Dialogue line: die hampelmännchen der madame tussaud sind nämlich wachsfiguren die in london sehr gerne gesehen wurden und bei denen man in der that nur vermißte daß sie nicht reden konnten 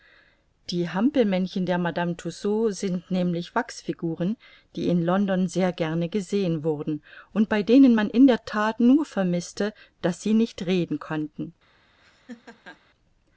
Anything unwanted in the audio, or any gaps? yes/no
yes